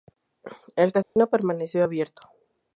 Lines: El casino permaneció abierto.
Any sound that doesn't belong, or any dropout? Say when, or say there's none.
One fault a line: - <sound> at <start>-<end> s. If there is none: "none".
- dropout at 1.0-1.2 s